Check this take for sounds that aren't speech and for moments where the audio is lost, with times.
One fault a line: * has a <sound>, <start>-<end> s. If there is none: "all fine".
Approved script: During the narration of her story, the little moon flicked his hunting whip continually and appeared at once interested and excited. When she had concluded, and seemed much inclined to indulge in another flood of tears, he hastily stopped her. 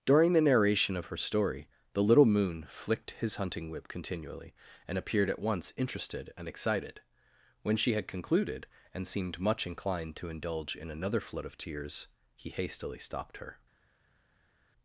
all fine